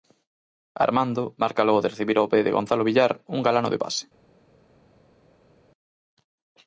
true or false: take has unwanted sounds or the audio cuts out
false